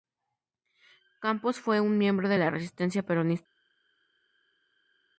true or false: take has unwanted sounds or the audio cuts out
false